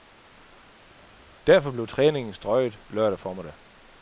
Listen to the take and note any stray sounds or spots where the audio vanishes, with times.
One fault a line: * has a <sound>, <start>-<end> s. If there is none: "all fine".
all fine